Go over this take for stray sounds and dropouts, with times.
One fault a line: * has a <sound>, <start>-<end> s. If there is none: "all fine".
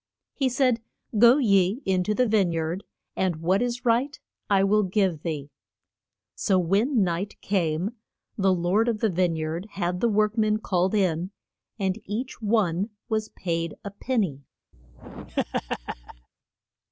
* has a laugh, 14.7-16.3 s